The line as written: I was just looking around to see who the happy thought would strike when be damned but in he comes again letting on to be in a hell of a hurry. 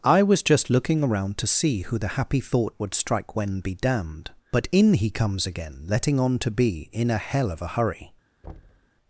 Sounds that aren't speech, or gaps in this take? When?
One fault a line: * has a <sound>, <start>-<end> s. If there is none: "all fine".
* has a thud, 8.4-8.9 s